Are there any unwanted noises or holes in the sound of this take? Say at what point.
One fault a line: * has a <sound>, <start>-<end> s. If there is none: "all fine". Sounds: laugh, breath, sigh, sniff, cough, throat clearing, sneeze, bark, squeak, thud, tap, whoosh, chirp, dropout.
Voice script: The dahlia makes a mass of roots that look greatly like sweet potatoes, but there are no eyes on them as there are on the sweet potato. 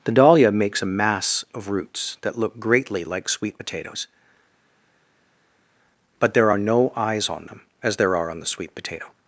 all fine